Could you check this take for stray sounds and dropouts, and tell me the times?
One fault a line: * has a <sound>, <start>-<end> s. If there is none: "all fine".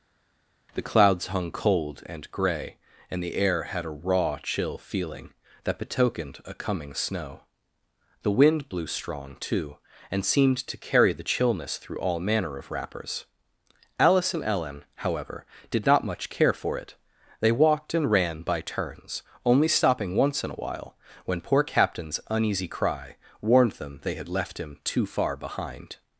all fine